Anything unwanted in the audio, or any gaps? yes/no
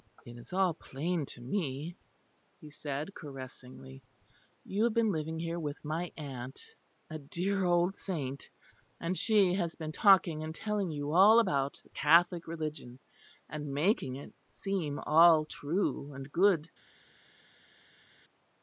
no